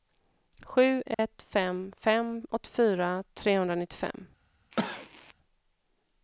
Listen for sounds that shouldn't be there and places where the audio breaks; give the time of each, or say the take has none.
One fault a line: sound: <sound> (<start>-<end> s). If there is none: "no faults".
sound: dropout (1.1-1.2 s)
sound: cough (4.7-5.3 s)